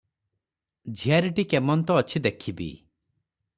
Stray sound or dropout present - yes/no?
no